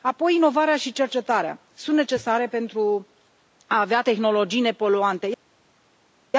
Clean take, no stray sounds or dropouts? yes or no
yes